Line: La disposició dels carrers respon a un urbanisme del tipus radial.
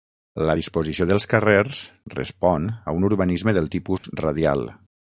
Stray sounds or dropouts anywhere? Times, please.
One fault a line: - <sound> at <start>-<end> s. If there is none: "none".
- dropout at 4.0-4.0 s